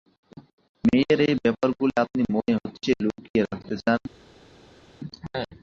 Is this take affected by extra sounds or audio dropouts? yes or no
no